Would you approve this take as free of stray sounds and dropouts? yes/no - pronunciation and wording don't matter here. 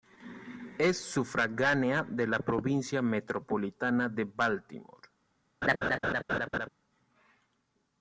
no